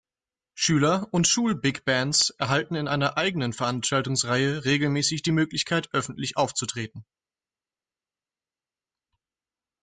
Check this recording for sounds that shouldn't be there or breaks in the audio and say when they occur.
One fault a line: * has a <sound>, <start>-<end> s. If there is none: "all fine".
all fine